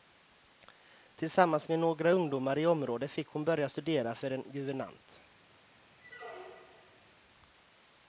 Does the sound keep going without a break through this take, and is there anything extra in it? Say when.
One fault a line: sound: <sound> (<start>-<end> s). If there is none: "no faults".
sound: squeak (6.0-7.1 s)